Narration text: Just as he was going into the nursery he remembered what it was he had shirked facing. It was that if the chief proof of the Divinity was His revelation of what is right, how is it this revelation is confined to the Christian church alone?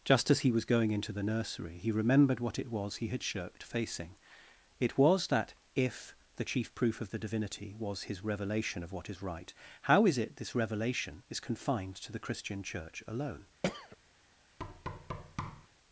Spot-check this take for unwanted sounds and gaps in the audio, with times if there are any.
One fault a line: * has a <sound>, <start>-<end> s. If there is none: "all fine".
* has a throat clearing, 13.6-14.0 s
* has a thud, 14.6-15.7 s